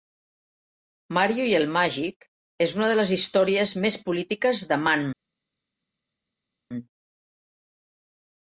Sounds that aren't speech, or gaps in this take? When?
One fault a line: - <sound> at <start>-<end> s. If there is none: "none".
none